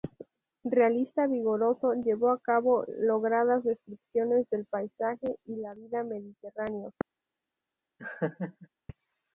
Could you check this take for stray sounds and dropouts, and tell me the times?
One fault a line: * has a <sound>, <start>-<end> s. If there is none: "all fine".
* has a laugh, 8.0-8.7 s